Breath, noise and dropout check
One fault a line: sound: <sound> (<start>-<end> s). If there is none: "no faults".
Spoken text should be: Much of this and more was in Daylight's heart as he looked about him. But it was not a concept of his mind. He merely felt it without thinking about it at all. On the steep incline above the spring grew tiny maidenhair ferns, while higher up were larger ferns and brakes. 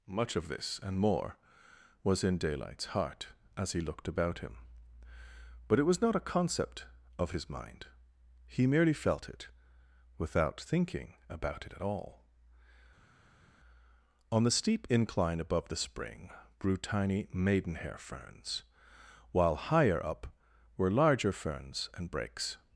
no faults